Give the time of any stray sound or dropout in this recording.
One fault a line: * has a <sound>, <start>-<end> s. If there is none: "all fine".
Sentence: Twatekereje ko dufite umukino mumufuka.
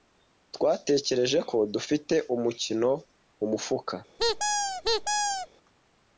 * has a squeak, 4.2-5.5 s